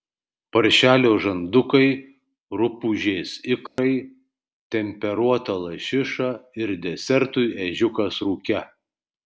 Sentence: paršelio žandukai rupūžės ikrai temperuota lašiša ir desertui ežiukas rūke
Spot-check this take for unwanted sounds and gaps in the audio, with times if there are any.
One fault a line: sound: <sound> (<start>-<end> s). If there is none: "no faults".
sound: dropout (3.7-3.8 s)